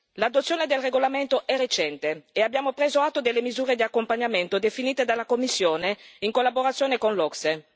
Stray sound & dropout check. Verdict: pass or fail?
pass